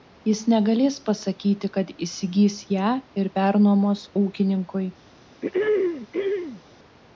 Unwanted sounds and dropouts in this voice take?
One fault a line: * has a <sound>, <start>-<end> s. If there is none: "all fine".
* has a throat clearing, 5.4-6.6 s